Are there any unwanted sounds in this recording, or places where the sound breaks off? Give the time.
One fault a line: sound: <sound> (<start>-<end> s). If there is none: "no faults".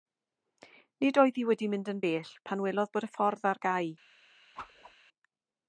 sound: whoosh (4.5-4.9 s)